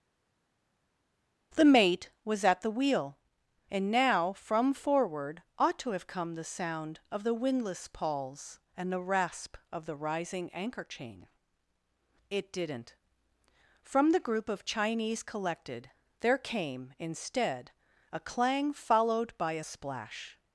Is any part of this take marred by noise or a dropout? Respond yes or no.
no